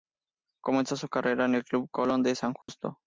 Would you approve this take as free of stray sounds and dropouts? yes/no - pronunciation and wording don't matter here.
no